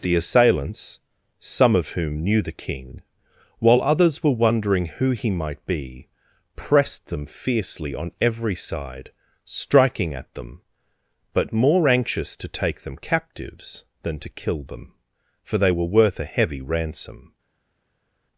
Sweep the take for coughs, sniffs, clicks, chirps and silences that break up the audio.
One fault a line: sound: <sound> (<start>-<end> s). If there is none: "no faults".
no faults